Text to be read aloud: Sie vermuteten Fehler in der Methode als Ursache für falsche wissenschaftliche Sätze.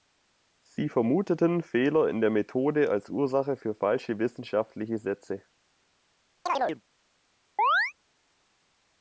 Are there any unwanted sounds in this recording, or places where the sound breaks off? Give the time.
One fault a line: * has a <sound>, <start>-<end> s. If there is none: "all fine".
* has a chirp, 6.5-6.8 s
* has a chirp, 7.6-7.9 s